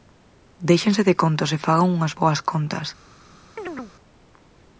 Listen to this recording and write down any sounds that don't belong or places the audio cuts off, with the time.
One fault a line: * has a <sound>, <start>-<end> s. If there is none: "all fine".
* has a chirp, 3.6-3.9 s